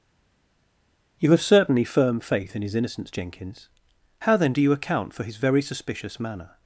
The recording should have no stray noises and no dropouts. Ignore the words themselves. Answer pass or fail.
pass